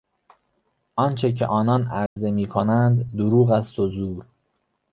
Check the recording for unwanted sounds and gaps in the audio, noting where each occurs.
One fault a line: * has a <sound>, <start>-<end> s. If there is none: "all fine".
* has a dropout, 2.1-2.2 s